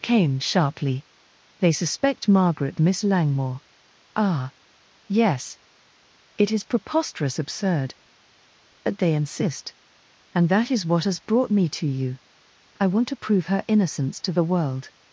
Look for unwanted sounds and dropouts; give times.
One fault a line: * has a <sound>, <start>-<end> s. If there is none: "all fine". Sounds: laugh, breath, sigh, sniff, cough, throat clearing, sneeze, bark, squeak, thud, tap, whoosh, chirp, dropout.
all fine